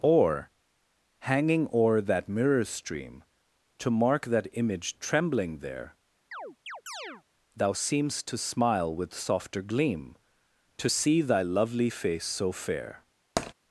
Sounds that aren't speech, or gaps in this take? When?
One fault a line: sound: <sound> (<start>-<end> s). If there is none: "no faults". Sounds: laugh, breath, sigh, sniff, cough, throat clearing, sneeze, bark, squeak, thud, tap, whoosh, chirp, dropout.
sound: chirp (6.3-7.2 s)
sound: tap (13.4-13.5 s)